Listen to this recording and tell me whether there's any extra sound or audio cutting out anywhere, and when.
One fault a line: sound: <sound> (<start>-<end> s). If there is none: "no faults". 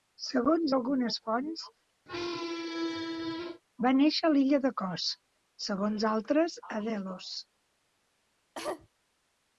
sound: squeak (2.1-3.6 s)
sound: cough (8.6-8.9 s)